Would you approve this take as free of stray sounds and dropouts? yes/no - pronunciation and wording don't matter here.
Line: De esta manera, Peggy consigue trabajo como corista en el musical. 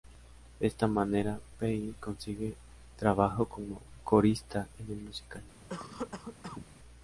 no